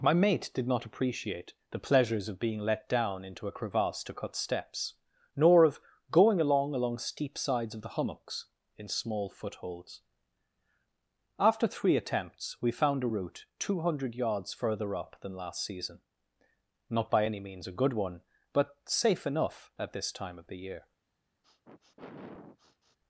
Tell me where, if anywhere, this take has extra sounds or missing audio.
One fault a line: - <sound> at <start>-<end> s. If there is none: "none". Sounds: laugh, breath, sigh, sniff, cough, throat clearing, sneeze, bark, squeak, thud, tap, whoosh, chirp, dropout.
- sniff at 21.4-23.0 s